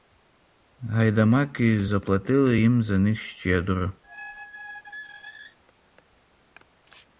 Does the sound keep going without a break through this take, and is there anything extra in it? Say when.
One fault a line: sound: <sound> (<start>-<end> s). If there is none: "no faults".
sound: squeak (4.0-5.6 s)